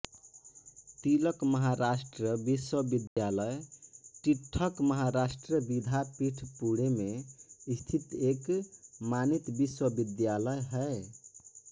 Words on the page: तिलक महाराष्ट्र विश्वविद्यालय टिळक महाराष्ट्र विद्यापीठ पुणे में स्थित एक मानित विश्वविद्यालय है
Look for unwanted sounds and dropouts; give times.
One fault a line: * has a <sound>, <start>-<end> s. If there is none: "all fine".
* has a dropout, 3.1-3.2 s